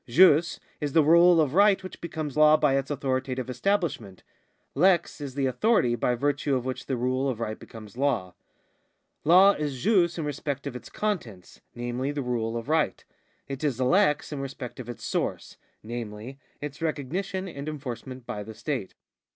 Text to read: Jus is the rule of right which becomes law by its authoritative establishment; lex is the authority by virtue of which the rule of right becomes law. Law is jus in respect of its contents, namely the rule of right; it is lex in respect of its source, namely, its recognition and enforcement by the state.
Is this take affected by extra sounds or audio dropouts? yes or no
no